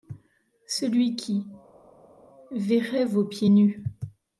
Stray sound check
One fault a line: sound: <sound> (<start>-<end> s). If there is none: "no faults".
no faults